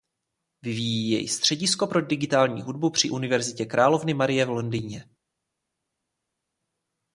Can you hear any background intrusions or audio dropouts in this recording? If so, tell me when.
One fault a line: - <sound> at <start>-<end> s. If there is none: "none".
none